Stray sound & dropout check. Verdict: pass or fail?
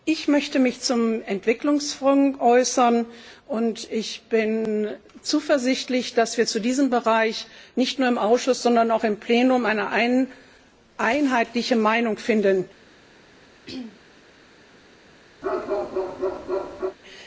fail